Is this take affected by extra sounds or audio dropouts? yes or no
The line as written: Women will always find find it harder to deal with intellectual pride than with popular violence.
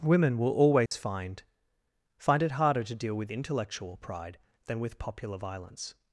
yes